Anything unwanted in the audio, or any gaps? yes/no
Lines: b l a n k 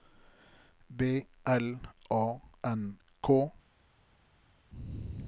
no